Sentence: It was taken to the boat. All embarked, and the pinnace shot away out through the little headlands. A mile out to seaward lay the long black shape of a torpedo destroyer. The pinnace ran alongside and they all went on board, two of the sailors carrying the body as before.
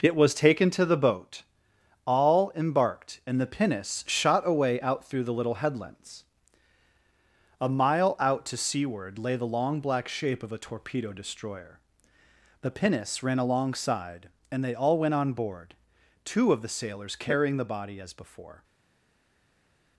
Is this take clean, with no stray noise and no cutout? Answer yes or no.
yes